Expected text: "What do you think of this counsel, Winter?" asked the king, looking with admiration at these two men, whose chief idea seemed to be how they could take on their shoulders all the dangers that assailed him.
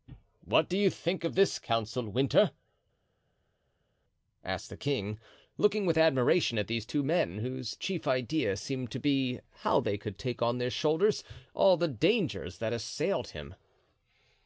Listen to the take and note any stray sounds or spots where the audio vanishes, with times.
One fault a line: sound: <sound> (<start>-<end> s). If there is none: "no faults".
no faults